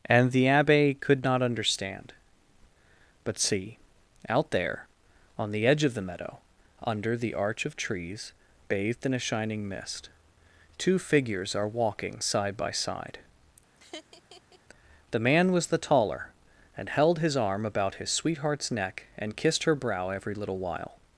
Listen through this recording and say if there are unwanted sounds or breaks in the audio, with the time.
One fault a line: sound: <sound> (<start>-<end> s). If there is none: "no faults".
sound: laugh (13.7-14.6 s)